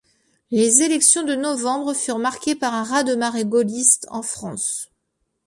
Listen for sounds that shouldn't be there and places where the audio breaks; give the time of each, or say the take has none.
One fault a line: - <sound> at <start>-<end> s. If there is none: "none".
none